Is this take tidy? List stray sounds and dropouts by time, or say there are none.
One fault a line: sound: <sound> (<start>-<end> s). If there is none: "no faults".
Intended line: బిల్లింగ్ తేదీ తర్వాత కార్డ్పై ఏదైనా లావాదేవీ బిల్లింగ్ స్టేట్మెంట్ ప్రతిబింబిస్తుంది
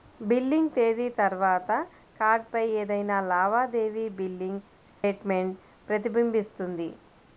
sound: dropout (4.9-5.0 s)